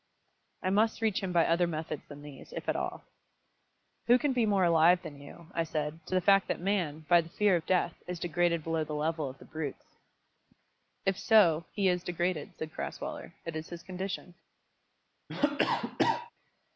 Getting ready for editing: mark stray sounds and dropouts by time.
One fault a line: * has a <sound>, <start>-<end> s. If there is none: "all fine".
* has a cough, 15.3-16.3 s